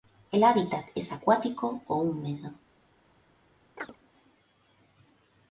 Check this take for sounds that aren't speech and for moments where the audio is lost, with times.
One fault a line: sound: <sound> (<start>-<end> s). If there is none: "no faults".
sound: chirp (3.8-4.0 s)